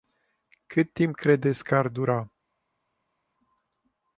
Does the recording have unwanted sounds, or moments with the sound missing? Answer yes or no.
no